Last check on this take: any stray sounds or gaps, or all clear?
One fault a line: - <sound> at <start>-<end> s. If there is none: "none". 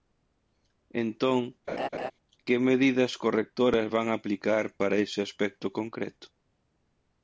- laugh at 1.7-2.1 s